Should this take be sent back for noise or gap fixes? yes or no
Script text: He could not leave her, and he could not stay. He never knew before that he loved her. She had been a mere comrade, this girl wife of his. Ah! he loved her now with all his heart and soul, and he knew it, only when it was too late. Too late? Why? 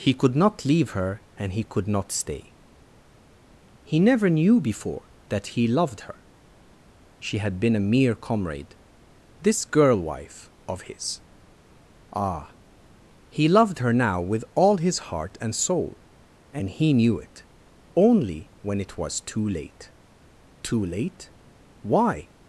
no